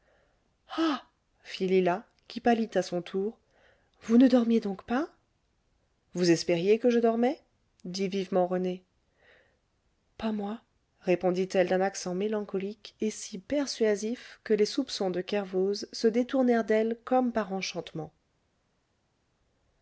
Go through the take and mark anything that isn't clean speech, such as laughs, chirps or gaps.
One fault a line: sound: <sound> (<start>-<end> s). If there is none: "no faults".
no faults